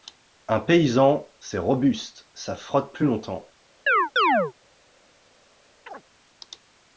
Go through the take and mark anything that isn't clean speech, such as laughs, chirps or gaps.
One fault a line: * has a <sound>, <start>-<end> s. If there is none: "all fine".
* has a chirp, 3.9-4.5 s
* has a chirp, 5.9-6.0 s